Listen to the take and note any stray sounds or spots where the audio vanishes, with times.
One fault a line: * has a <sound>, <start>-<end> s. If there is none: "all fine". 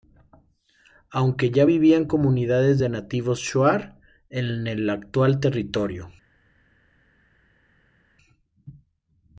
all fine